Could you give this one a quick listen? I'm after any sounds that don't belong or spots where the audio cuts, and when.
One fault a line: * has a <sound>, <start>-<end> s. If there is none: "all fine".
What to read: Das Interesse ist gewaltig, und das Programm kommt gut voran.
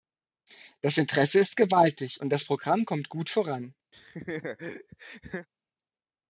* has a laugh, 3.9-5.5 s